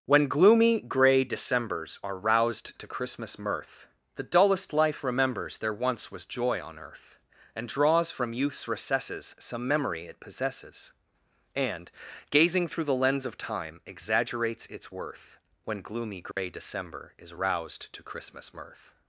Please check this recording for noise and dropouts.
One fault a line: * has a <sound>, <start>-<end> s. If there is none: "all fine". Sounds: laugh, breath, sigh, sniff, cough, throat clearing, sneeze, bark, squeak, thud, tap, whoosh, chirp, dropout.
* has a dropout, 16.3-16.4 s